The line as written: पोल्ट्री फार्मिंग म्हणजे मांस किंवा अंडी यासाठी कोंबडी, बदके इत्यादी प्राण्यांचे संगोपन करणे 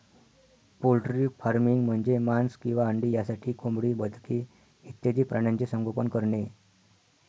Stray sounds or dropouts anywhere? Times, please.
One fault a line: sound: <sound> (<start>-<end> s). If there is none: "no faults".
no faults